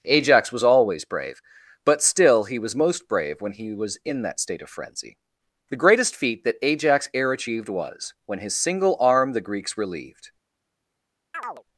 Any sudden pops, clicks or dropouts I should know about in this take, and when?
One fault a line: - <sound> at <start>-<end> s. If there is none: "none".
- chirp at 11.3-11.6 s